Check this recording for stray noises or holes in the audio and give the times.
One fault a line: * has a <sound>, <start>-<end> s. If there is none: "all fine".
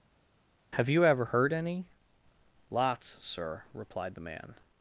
all fine